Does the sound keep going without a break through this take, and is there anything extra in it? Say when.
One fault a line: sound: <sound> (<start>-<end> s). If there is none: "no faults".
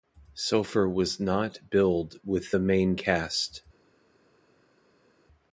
no faults